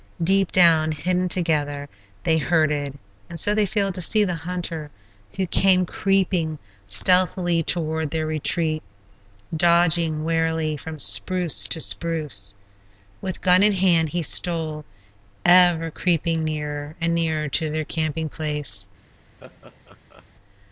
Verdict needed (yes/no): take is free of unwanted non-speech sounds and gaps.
no